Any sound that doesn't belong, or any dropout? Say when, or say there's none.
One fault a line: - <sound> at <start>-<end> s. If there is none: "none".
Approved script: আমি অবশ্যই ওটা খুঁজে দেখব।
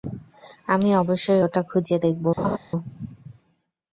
- laugh at 2.4-2.6 s